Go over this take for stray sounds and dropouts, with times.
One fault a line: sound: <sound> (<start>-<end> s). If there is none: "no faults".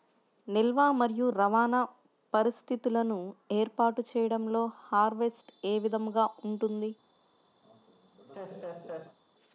sound: laugh (7.6-9.2 s)